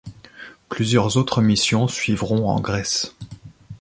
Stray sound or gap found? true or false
false